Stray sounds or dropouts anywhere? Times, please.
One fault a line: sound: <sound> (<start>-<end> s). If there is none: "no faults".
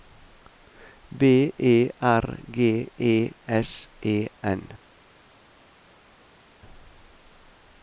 no faults